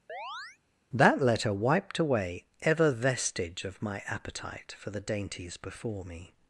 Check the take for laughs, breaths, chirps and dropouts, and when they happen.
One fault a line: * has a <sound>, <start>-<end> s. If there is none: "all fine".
* has a chirp, 0.1-0.6 s